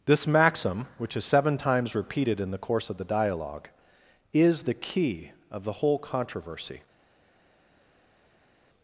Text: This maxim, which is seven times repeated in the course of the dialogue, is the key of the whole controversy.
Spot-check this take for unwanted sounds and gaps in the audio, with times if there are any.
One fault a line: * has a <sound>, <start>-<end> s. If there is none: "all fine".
all fine